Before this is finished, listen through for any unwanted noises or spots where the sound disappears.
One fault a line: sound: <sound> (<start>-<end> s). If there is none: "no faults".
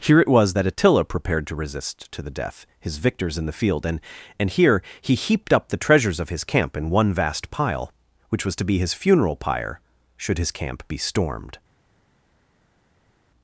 no faults